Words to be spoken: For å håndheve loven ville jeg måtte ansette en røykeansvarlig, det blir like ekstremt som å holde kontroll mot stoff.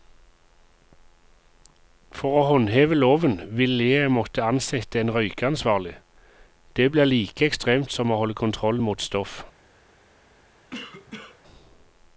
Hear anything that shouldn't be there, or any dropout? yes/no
yes